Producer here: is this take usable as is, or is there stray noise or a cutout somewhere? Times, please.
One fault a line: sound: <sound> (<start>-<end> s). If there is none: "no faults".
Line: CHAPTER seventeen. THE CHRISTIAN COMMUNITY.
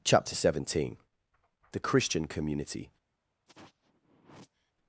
sound: sigh (3.5-4.7 s)